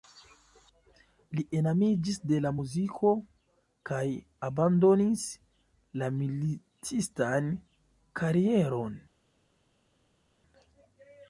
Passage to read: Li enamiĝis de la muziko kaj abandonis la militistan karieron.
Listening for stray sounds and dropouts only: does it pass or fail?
pass